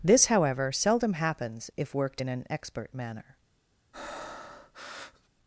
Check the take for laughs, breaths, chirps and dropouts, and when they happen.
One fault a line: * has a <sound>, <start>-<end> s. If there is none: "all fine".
* has a breath, 3.9-5.3 s